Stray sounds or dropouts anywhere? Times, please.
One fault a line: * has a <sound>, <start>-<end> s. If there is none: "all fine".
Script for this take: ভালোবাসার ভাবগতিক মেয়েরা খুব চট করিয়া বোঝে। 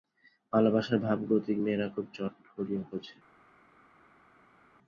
all fine